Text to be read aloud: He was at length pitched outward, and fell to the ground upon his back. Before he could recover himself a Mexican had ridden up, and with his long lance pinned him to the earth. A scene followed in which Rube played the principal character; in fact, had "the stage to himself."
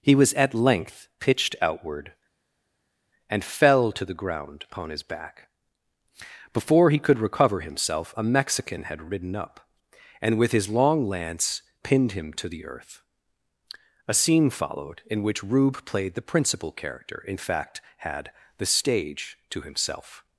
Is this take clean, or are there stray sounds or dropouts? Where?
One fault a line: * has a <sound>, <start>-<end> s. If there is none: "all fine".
all fine